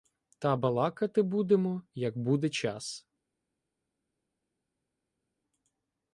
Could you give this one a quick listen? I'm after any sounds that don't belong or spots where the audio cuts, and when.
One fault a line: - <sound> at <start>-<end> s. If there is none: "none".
none